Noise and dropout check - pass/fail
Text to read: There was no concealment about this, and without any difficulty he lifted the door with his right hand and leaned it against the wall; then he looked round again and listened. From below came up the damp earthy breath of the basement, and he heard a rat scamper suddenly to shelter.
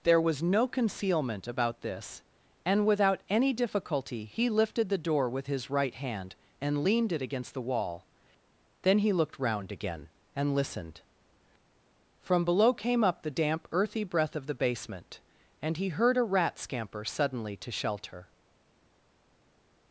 pass